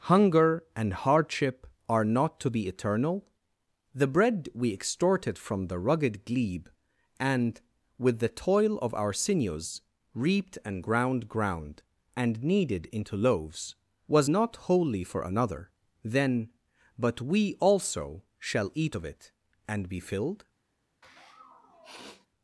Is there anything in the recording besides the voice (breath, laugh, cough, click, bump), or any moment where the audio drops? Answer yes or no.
yes